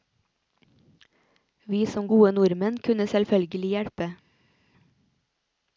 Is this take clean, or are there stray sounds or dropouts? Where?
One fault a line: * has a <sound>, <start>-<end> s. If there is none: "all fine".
all fine